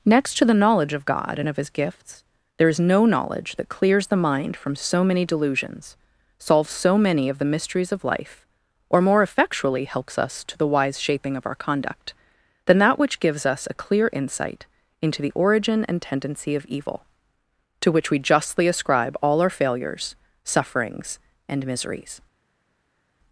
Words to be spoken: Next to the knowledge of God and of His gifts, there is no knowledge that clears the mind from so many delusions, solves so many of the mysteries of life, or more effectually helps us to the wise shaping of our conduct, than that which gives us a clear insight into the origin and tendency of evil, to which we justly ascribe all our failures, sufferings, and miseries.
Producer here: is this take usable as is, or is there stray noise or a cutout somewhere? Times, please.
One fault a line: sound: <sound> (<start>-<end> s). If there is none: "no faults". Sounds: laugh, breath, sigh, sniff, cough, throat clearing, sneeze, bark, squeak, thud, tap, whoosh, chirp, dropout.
no faults